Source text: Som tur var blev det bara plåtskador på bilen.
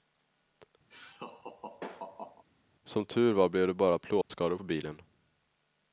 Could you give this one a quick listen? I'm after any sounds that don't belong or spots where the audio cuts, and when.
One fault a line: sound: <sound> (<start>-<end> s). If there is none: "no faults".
sound: laugh (0.9-2.4 s)
sound: dropout (4.2-4.3 s)